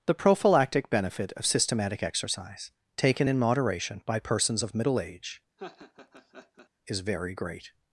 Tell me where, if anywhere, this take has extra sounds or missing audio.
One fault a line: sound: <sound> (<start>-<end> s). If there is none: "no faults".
sound: laugh (5.6-6.7 s)